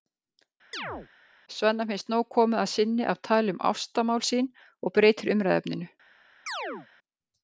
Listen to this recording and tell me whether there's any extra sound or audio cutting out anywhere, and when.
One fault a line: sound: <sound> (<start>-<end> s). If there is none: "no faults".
sound: chirp (0.7-1.1 s)
sound: chirp (6.5-6.9 s)